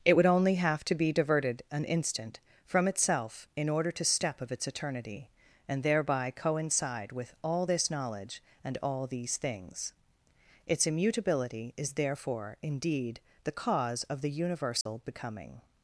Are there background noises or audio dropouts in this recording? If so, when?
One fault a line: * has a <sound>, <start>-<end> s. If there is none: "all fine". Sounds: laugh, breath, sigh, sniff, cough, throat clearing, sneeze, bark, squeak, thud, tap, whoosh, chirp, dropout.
* has a dropout, 14.8-14.9 s